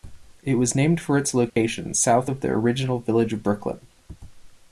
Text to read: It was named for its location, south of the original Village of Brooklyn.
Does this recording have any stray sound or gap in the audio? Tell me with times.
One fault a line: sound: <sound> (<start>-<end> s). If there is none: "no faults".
sound: dropout (1.5-1.6 s)